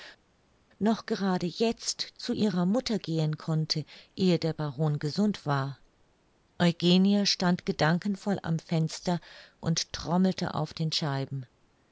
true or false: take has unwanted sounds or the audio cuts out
false